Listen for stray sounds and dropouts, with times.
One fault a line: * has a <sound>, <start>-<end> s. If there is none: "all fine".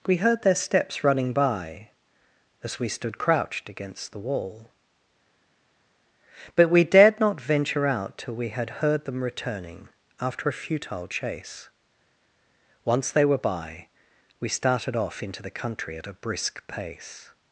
all fine